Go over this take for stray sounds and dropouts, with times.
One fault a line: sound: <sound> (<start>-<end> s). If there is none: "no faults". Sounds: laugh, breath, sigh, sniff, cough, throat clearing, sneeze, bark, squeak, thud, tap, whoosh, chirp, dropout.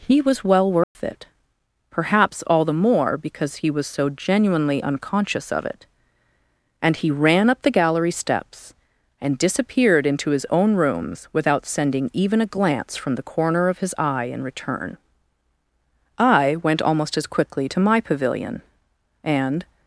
sound: dropout (0.8-1.0 s)